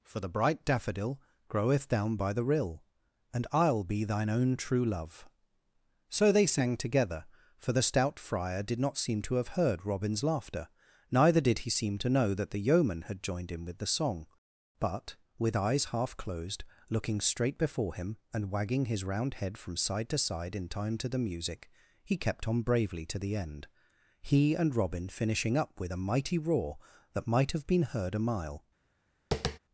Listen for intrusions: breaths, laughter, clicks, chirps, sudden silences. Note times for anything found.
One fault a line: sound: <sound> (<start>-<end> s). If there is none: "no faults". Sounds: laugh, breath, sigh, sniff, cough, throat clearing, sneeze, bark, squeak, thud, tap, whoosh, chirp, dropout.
sound: tap (29.3-29.6 s)